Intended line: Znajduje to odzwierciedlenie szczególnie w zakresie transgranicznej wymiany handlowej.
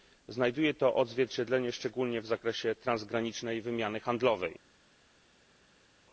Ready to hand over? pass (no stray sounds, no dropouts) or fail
pass